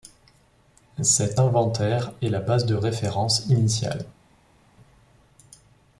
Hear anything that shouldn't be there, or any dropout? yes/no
no